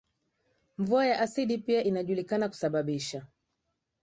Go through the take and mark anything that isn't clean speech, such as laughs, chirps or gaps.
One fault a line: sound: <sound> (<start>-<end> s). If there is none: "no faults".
no faults